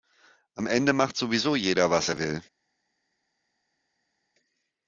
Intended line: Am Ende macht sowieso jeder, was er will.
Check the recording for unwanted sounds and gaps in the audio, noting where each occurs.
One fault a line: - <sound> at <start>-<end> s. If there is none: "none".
none